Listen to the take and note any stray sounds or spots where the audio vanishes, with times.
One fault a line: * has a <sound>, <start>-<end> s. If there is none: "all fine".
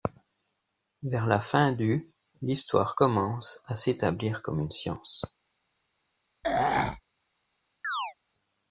* has a throat clearing, 6.4-7.0 s
* has a chirp, 7.8-8.1 s